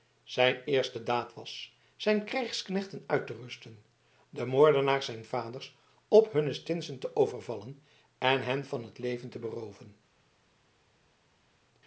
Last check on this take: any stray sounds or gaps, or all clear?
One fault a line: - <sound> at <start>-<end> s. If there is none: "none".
none